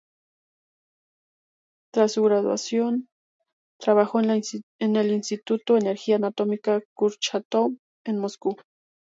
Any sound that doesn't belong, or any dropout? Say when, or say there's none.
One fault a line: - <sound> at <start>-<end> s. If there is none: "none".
none